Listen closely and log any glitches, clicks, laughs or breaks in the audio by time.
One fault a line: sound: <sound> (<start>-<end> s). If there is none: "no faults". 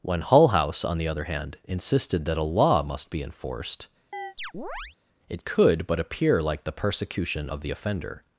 sound: chirp (4.1-5.0 s)